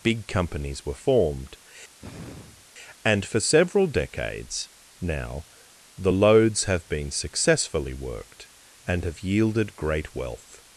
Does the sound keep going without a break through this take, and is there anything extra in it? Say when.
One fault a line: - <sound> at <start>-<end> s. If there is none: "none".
- sigh at 2.0-2.7 s